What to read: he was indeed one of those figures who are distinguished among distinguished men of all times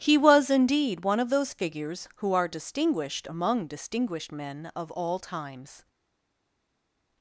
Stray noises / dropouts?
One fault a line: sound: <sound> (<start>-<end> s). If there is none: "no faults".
no faults